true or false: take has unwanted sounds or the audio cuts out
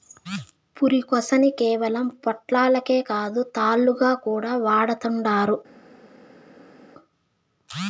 false